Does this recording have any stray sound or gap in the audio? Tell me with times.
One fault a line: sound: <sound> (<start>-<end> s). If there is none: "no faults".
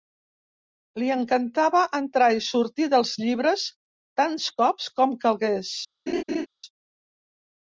sound: laugh (6.1-6.5 s)